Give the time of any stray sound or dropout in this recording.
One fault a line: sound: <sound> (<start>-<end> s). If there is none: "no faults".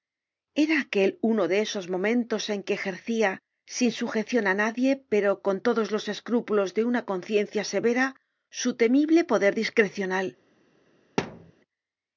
sound: thud (11.2-11.5 s)